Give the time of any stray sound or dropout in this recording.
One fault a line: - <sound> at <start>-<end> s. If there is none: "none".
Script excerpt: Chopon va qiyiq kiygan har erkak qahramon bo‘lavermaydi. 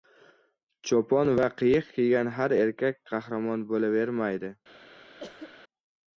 - cough at 5.2-5.6 s